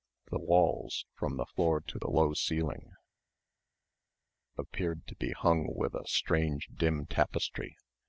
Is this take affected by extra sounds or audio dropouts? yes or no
no